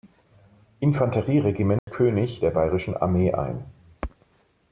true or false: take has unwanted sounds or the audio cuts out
true